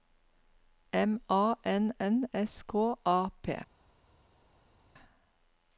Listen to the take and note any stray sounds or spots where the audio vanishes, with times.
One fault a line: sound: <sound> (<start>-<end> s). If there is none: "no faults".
no faults